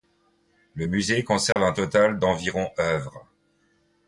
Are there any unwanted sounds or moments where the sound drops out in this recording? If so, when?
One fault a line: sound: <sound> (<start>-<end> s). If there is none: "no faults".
sound: dropout (1.5-1.6 s)